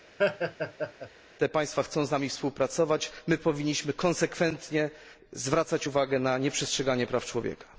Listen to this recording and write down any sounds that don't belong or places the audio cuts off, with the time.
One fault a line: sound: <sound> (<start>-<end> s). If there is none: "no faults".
sound: laugh (0.2-1.1 s)